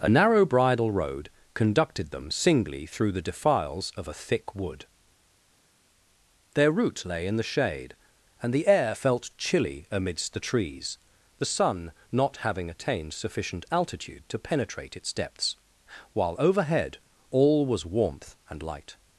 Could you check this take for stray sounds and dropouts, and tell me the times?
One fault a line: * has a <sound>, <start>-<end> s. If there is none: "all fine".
all fine